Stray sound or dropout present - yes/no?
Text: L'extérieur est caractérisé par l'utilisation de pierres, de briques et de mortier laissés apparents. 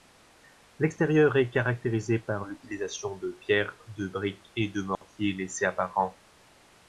yes